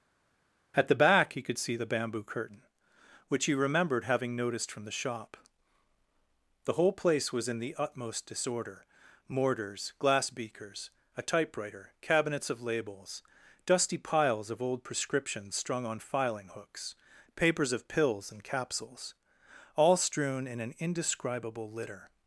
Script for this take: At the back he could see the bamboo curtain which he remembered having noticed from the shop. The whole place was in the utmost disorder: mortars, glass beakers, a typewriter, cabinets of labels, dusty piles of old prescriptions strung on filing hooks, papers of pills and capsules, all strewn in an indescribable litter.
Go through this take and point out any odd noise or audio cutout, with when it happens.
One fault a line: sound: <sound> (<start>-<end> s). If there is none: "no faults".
no faults